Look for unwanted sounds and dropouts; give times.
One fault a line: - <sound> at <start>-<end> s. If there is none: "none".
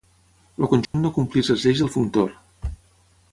- dropout at 0.8-0.9 s